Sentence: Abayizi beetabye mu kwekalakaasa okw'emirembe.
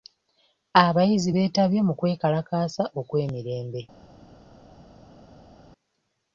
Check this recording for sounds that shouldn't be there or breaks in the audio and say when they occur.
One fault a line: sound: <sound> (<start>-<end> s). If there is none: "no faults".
no faults